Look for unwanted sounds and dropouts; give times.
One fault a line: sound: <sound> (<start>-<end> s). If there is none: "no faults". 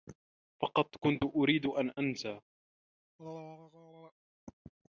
sound: throat clearing (3.2-4.1 s)